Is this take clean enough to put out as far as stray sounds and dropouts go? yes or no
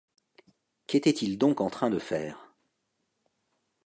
yes